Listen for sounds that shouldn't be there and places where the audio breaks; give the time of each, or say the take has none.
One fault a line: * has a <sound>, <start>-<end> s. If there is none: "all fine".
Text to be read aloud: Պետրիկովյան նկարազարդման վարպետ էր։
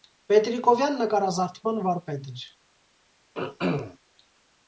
* has a throat clearing, 3.3-4.0 s